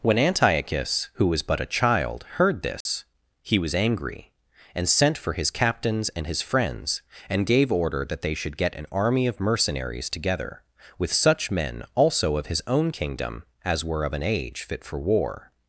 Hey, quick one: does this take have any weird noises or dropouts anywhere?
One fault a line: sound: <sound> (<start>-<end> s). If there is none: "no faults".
sound: dropout (2.8-2.9 s)